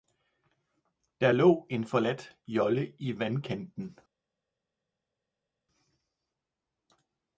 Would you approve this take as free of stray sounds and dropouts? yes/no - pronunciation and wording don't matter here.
yes